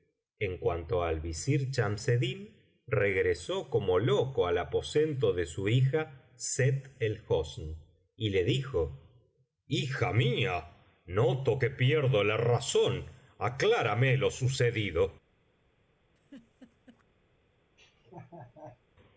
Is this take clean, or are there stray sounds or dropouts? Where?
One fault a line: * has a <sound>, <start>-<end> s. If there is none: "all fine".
* has a laugh, 16.2-17.0 s
* has a laugh, 17.8-18.8 s